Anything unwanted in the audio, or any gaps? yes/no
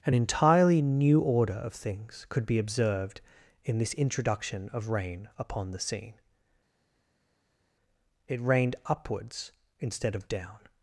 no